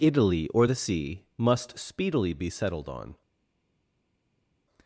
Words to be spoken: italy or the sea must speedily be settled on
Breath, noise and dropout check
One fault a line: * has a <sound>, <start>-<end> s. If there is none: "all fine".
all fine